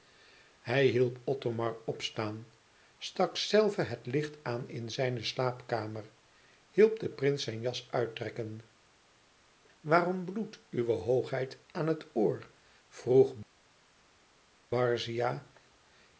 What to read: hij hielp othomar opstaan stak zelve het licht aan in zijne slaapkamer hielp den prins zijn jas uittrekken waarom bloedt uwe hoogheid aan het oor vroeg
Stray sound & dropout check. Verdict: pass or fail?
pass